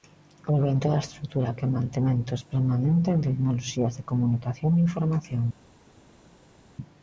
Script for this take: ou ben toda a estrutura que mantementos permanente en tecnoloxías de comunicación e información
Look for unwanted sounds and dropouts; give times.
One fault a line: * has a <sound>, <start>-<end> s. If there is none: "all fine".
all fine